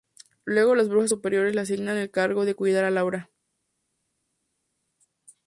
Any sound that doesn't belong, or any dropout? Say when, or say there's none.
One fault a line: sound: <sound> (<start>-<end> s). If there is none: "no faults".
no faults